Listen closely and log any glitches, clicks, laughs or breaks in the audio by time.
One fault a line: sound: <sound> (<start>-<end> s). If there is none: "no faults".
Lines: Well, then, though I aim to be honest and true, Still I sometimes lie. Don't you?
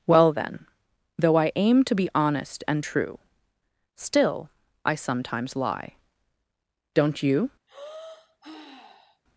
sound: sigh (7.7-9.2 s)